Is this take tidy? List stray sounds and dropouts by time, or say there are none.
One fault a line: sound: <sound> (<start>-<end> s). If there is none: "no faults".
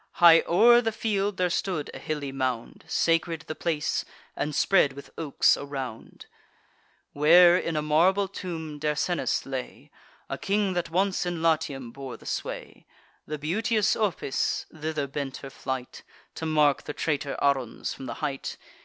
no faults